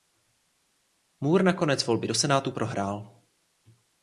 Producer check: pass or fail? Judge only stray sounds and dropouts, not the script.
pass